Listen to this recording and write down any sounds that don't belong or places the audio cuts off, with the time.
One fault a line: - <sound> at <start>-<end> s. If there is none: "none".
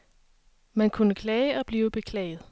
none